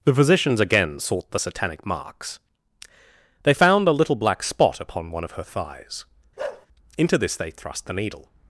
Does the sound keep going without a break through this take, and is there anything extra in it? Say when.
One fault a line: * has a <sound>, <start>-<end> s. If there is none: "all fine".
* has a bark, 6.4-6.7 s